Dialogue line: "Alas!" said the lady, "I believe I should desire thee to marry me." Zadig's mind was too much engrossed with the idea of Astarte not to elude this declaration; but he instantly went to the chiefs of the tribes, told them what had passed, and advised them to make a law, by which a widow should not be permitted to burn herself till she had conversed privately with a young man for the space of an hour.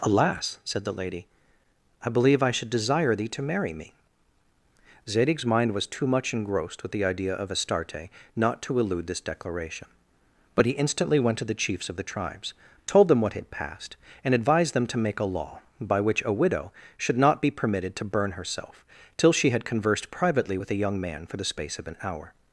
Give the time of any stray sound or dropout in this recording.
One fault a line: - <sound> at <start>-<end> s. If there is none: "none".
none